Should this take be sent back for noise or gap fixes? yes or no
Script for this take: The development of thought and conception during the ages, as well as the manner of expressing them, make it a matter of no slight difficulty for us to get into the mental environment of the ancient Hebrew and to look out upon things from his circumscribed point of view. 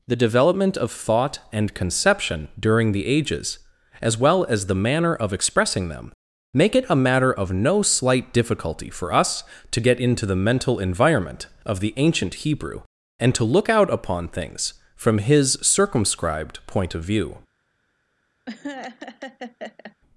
yes